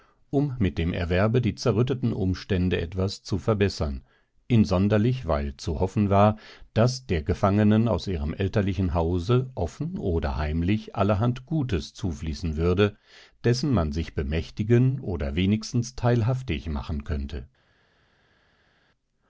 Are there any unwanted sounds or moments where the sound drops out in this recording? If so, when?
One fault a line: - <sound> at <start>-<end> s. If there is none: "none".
none